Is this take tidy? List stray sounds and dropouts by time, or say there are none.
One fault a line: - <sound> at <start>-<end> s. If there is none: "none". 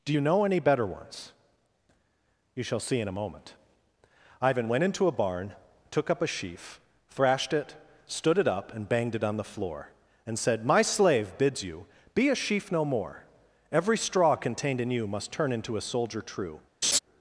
- laugh at 16.8-17.0 s